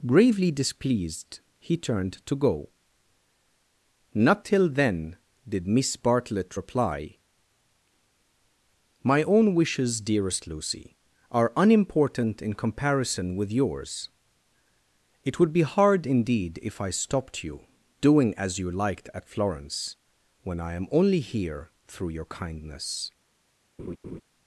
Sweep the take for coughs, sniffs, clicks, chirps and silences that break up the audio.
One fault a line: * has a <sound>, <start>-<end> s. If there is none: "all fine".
* has a laugh, 23.8-24.2 s